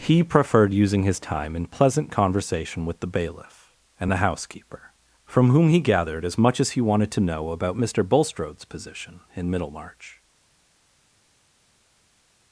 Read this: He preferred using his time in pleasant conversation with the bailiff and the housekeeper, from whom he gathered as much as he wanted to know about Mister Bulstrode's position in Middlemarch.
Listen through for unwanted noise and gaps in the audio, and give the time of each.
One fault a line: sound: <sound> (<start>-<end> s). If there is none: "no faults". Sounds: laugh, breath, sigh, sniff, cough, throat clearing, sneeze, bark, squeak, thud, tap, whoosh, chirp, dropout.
no faults